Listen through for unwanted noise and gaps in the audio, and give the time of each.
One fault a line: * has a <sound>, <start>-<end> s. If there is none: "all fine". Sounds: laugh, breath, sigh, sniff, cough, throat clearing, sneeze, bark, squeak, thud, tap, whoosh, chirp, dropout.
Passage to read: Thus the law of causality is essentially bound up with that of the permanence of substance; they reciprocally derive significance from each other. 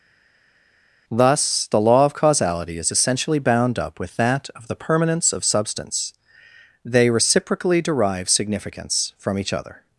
all fine